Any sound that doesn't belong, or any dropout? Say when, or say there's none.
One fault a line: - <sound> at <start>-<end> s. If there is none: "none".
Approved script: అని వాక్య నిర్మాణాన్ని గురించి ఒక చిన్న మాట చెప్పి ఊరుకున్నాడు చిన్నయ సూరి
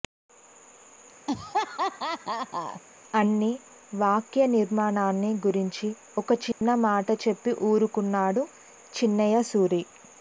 - laugh at 1.3-2.8 s
- dropout at 6.5-6.6 s